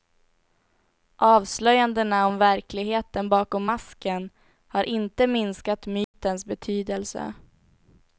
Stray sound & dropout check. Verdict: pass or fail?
fail